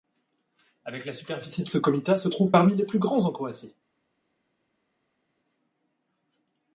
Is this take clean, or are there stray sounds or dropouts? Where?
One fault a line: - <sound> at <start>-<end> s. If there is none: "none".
none